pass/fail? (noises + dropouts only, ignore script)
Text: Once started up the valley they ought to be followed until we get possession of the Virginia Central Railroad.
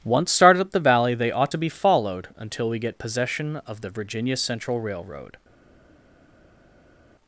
pass